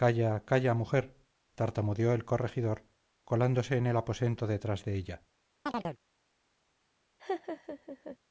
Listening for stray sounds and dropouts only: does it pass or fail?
fail